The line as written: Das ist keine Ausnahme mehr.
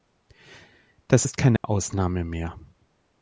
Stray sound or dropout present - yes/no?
yes